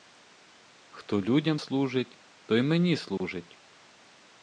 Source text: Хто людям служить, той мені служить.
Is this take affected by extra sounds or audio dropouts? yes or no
yes